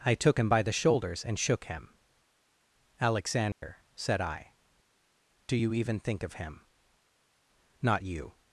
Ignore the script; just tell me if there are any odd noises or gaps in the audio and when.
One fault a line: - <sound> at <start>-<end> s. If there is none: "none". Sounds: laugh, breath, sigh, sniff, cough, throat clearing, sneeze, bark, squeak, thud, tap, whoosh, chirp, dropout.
- dropout at 3.5-3.6 s